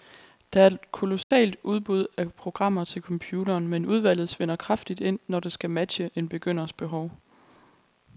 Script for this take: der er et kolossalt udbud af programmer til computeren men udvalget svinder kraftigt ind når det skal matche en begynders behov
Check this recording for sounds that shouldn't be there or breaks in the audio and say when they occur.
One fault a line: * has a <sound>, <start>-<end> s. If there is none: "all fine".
* has a dropout, 1.2-1.3 s